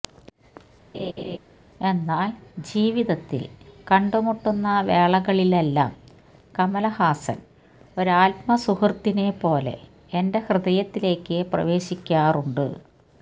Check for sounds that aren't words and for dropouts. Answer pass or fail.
fail